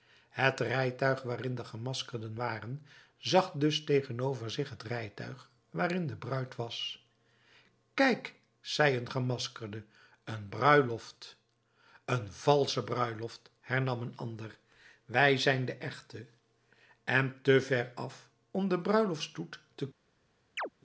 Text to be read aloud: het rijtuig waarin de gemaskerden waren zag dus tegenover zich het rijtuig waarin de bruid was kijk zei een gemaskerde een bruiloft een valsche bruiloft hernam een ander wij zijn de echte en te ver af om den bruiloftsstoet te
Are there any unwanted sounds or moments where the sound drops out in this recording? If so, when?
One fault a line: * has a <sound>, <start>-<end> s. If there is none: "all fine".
* has a chirp, 20.6-20.7 s